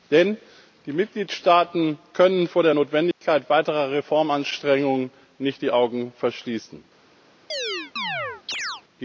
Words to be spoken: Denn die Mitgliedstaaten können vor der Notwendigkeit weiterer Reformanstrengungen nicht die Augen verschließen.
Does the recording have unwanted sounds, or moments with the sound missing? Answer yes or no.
yes